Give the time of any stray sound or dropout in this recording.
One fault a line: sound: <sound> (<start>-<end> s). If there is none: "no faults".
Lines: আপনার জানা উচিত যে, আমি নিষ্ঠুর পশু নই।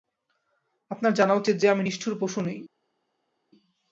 no faults